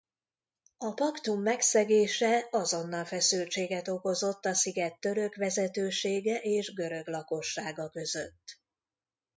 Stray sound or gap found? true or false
false